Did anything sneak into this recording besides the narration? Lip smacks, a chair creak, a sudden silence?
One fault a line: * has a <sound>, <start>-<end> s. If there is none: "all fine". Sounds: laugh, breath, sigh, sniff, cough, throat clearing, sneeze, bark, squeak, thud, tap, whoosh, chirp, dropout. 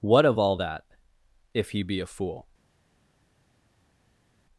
all fine